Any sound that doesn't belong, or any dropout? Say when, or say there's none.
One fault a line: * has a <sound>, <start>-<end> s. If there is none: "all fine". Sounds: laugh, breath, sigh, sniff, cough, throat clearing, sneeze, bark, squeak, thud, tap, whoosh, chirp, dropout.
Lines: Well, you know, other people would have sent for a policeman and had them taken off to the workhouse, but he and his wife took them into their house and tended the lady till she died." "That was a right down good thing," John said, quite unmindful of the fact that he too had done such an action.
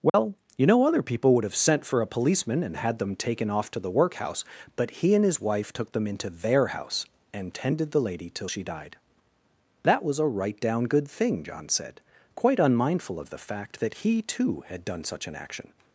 * has a dropout, 0.1-0.1 s